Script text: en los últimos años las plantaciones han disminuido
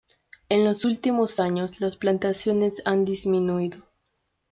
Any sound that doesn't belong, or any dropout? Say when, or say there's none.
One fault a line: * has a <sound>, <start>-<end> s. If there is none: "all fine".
all fine